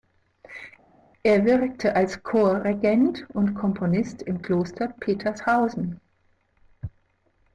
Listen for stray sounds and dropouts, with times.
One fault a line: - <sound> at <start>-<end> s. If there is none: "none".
none